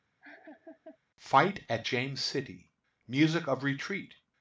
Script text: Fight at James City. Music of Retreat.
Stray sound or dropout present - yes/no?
yes